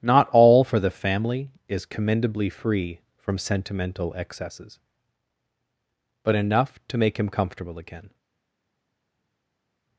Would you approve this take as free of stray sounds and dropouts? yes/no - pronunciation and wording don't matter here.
yes